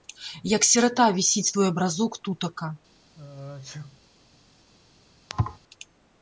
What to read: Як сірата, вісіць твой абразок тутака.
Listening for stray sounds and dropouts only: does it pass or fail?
fail